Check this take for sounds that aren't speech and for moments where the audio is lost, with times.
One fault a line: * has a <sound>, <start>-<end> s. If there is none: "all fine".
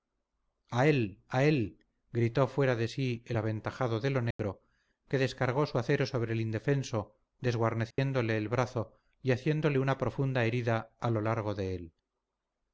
* has a dropout, 4.3-4.4 s
* has a dropout, 7.9-8.0 s